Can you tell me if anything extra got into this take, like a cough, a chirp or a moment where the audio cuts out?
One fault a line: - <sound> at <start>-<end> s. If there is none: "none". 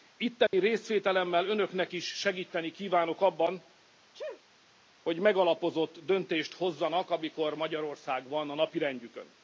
- dropout at 0.5-0.5 s
- sneeze at 4.1-4.4 s